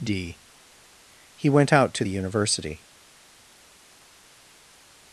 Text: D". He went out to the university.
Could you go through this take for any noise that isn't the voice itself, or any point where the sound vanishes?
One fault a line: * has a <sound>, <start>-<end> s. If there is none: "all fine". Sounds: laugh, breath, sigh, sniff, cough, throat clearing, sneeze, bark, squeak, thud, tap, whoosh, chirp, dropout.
all fine